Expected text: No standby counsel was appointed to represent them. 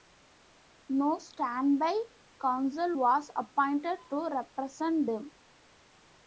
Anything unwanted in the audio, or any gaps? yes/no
no